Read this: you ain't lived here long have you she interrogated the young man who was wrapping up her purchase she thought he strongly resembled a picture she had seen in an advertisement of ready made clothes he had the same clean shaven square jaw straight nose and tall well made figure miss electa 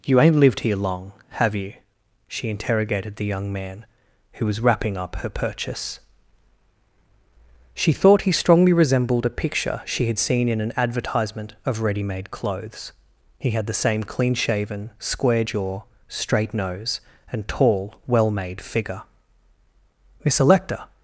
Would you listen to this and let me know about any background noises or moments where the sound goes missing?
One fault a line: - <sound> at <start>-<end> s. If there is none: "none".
none